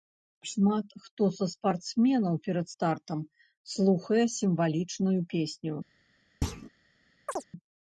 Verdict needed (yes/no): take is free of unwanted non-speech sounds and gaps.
no